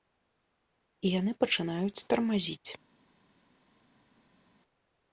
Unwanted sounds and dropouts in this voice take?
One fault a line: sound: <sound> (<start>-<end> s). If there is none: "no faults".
no faults